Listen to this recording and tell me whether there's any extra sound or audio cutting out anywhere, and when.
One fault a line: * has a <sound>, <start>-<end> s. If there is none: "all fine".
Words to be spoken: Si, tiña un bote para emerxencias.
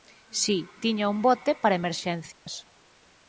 * has a dropout, 2.3-2.5 s